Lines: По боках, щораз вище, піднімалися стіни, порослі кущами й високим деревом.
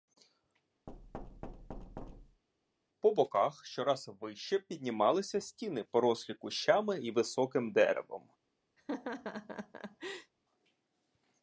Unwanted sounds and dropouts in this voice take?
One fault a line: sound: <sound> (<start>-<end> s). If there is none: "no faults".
sound: thud (0.9-2.4 s)
sound: laugh (8.8-10.3 s)